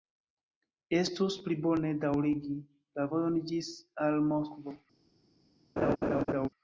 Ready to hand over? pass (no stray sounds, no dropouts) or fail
fail